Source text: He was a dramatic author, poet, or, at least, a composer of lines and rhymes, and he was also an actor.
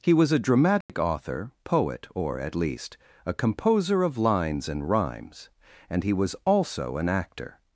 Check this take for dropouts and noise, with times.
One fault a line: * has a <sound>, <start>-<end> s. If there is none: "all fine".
* has a dropout, 0.8-0.9 s